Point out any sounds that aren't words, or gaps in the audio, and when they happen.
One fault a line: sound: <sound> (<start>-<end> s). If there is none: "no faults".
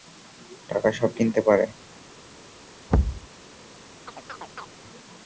sound: thud (2.9-3.3 s)
sound: chirp (4.1-4.7 s)